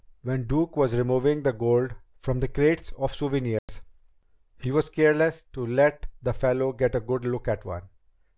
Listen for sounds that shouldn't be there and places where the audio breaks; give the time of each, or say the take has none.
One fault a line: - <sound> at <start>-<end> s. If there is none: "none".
- dropout at 3.6-3.7 s